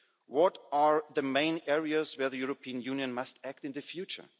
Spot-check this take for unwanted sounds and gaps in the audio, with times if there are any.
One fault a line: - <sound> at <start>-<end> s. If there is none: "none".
none